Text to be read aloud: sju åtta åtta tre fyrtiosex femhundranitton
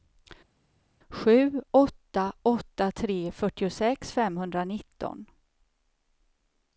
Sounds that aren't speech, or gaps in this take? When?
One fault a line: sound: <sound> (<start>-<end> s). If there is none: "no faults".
no faults